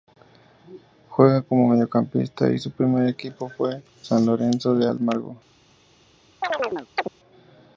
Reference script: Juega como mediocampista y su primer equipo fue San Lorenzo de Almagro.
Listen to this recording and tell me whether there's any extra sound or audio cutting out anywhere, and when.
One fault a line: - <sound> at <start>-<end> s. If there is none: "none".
- chirp at 6.4-7.1 s